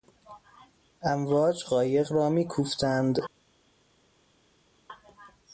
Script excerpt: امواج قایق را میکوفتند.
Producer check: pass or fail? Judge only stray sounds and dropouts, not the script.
pass